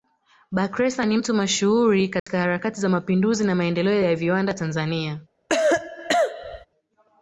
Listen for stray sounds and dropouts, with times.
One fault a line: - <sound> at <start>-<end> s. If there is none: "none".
- dropout at 2.2-2.3 s
- cough at 5.5-6.7 s